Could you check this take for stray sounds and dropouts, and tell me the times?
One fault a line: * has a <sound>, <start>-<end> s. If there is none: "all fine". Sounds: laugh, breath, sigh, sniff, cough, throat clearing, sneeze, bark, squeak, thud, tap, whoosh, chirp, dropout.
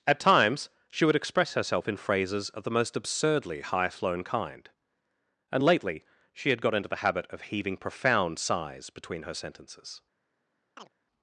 * has a chirp, 10.8-10.9 s